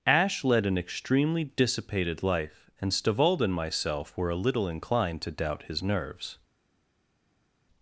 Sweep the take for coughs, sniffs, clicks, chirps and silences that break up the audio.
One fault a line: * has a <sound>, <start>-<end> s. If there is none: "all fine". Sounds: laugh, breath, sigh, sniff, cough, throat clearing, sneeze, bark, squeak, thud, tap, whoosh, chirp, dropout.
all fine